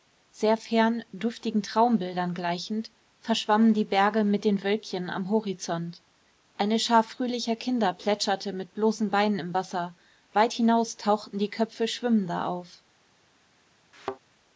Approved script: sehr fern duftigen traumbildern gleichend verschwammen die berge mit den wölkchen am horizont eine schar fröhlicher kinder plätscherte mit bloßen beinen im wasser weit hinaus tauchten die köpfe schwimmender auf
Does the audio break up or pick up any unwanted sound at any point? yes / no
yes